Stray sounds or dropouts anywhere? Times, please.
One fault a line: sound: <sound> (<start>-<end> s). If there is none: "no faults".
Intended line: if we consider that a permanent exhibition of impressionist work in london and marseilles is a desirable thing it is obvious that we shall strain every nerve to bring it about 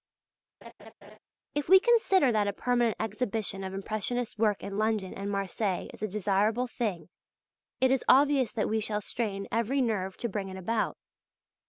sound: laugh (0.6-1.2 s)